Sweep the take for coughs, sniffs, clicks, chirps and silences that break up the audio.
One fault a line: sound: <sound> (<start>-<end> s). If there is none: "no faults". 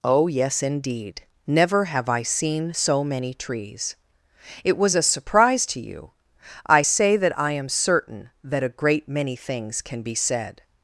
no faults